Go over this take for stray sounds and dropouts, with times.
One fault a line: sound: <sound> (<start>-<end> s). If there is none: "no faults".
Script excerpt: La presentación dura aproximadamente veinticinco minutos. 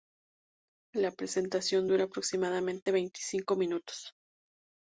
sound: dropout (2.8-2.9 s)